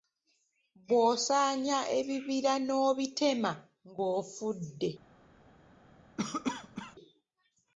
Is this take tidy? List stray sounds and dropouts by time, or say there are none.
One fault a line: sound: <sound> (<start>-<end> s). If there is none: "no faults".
sound: cough (6.2-7.0 s)